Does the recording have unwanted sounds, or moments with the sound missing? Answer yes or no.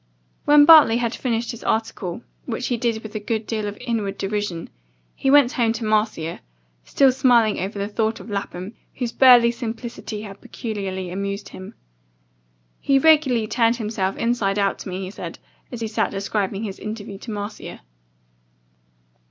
no